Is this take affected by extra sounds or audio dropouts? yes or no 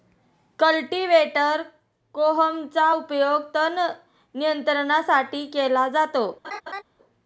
yes